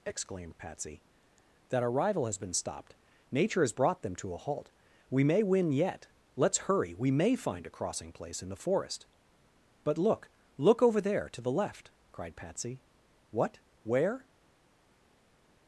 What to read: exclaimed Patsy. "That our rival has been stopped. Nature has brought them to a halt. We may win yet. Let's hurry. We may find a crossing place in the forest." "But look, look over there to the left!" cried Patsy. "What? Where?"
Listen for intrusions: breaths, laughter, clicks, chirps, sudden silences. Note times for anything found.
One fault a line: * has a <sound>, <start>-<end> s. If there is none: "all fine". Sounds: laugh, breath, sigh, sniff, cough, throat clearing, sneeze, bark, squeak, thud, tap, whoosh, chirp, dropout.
all fine